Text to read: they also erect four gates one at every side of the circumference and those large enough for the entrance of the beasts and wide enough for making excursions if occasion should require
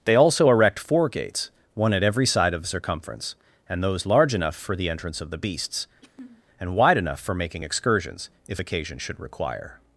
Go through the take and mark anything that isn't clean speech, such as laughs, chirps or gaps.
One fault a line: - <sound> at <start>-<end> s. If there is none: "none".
- throat clearing at 6.0-6.4 s